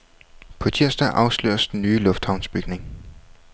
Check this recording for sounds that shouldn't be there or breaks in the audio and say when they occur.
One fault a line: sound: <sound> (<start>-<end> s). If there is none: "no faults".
no faults